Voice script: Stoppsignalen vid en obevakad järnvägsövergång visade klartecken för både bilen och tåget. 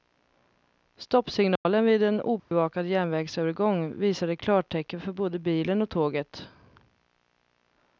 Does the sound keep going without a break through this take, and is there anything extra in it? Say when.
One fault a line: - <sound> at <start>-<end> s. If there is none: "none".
- dropout at 1.6-1.7 s
- dropout at 2.4-2.5 s